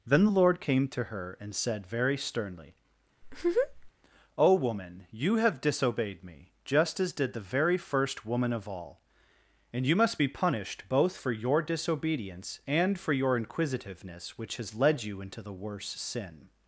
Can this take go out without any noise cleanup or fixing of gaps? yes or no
no